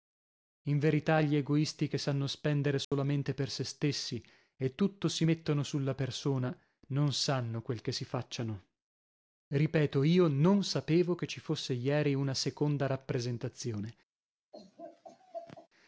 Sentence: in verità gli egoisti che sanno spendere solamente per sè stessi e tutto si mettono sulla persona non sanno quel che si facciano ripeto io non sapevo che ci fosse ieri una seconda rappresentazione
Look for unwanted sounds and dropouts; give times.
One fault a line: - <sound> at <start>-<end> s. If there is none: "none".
- dropout at 2.8-2.9 s
- laugh at 14.5-15.7 s